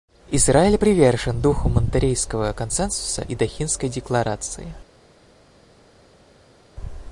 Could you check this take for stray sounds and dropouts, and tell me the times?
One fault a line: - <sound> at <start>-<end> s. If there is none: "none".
none